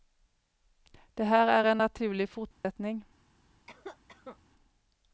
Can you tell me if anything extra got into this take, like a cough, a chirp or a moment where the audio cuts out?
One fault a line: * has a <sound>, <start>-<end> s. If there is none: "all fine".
* has a dropout, 2.5-2.6 s
* has a cough, 3.7-4.4 s